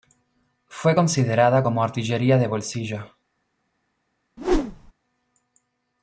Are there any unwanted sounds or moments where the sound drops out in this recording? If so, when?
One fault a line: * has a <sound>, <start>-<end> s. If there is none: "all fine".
* has a whoosh, 4.4-4.9 s